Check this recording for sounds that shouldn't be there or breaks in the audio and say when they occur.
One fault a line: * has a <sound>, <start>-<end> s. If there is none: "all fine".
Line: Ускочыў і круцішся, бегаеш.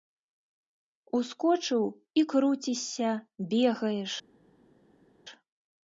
all fine